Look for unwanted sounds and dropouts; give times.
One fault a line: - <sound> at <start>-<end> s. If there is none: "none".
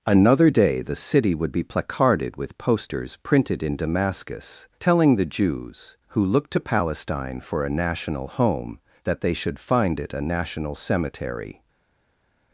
none